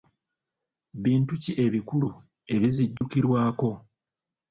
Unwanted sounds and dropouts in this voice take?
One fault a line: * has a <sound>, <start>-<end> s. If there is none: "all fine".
* has a dropout, 3.0-3.0 s